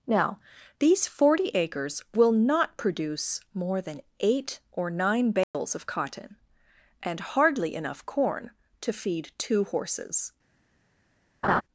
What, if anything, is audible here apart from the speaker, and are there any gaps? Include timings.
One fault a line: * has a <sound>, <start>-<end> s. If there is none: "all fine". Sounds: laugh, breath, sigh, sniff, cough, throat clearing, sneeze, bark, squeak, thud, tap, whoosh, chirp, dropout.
* has a dropout, 5.4-5.5 s
* has a laugh, 11.4-11.6 s